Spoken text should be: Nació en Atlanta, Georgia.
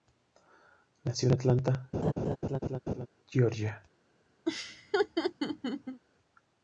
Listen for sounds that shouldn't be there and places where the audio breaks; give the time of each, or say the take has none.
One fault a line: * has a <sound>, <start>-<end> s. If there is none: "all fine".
* has a laugh, 1.9-3.1 s
* has a laugh, 4.5-6.0 s